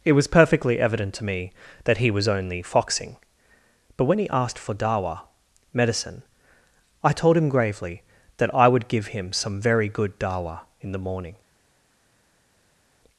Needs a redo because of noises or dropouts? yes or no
no